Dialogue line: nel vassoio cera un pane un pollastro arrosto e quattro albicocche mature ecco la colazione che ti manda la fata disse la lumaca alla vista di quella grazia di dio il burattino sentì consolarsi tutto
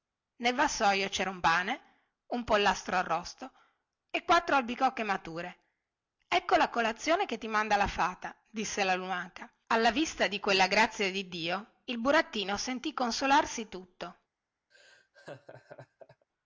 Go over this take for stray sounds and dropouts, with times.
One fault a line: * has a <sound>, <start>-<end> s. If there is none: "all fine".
* has a laugh, 14.7-16.3 s